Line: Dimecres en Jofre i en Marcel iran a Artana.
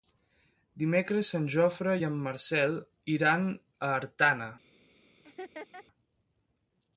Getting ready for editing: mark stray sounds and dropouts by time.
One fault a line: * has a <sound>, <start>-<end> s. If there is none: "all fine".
* has a laugh, 5.2-5.8 s